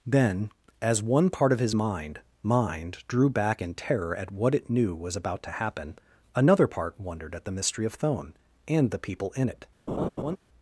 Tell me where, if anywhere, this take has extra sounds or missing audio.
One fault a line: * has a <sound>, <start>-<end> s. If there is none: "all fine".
* has a laugh, 9.9-10.4 s